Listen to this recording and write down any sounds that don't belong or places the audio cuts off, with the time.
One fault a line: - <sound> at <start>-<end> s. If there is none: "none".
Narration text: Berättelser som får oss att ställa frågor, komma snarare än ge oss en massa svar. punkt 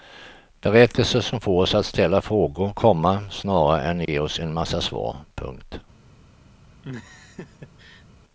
- dropout at 4.1-4.1 s
- laugh at 6.8-8.1 s